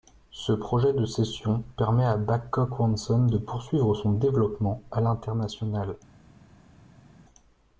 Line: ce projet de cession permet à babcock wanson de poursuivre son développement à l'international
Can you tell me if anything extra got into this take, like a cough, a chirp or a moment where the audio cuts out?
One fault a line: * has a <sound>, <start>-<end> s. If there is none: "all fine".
all fine